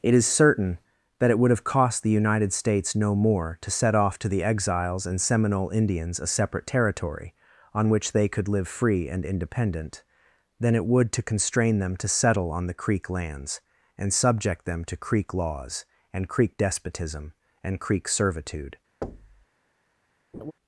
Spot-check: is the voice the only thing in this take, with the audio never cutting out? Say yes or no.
no